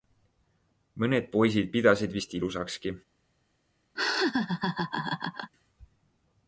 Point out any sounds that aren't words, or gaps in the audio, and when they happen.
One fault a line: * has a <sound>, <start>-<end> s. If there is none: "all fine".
* has a laugh, 4.0-5.5 s